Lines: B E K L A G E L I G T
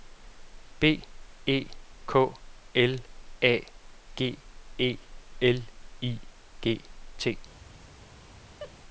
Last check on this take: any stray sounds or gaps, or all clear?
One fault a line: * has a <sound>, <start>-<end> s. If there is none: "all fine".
* has a laugh, 8.6-8.7 s